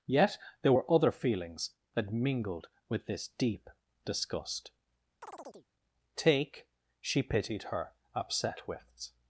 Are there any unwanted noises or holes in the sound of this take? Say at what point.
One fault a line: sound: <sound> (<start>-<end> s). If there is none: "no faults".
sound: chirp (5.2-5.7 s)